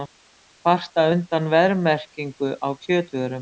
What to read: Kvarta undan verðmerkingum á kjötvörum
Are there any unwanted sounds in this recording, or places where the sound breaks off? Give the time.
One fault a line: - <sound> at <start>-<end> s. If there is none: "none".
none